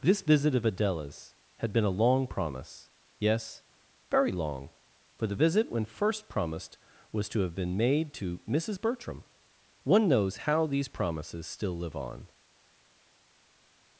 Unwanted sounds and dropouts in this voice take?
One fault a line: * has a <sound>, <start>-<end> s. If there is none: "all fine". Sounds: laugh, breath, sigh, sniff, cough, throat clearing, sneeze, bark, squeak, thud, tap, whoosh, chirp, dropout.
all fine